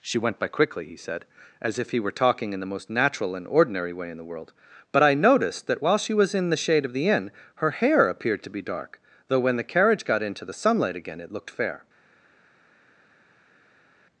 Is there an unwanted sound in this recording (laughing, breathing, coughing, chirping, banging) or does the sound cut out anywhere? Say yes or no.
no